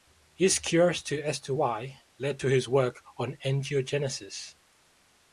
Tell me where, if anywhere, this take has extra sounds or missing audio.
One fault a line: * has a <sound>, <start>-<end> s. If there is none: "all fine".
all fine